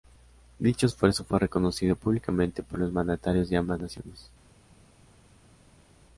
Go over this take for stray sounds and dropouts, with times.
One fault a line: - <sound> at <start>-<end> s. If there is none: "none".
none